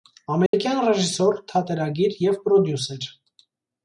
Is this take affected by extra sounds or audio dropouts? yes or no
yes